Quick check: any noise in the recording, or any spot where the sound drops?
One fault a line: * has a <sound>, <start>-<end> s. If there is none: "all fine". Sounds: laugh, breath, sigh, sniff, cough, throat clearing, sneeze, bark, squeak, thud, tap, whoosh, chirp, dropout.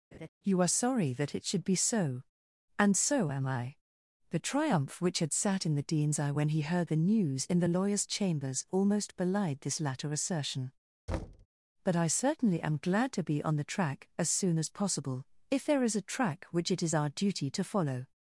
* has a laugh, 0.1-0.3 s
* has a thud, 11.1-11.5 s